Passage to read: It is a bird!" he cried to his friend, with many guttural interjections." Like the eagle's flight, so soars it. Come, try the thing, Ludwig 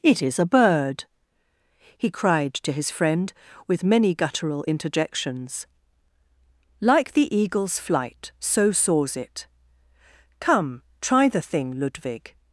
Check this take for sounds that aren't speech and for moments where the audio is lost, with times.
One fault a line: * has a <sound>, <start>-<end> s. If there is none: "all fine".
all fine